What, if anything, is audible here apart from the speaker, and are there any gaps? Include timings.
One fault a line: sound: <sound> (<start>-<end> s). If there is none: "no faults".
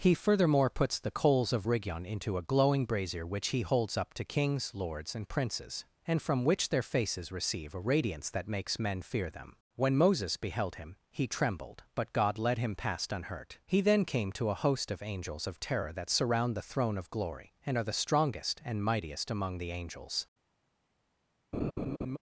sound: laugh (21.5-22.2 s)